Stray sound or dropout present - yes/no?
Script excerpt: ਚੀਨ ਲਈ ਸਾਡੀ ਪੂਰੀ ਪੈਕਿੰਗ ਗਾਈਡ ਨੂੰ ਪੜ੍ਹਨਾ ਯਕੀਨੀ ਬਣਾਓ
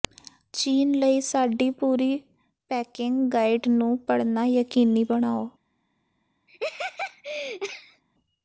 yes